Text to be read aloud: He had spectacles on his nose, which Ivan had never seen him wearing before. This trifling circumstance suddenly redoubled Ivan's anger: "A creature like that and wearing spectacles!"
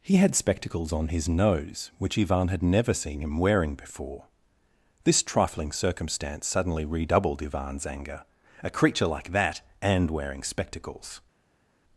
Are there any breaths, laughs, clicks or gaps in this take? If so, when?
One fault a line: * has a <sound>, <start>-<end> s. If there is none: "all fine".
all fine